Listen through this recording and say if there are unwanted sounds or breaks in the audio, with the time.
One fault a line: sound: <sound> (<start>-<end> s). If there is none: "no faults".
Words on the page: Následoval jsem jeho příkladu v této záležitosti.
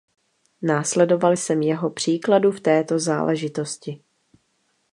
no faults